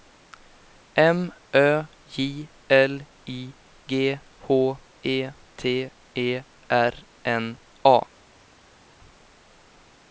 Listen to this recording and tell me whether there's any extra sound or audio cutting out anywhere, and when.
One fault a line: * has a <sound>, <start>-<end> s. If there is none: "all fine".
all fine